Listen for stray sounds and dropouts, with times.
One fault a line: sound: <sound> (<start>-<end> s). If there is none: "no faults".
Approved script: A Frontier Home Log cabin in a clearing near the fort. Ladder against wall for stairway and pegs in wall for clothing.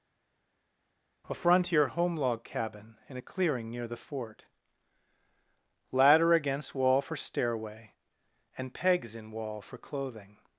no faults